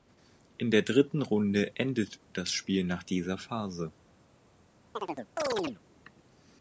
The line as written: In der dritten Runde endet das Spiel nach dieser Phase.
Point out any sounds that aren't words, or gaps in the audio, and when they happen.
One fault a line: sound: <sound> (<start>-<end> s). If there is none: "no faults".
sound: chirp (4.9-5.8 s)